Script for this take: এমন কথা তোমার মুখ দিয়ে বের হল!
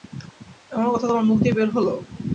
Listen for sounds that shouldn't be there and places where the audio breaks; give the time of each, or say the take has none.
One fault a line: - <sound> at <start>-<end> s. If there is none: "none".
none